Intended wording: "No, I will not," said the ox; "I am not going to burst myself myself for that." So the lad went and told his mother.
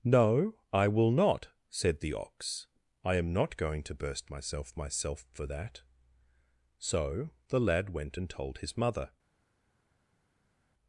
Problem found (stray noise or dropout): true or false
false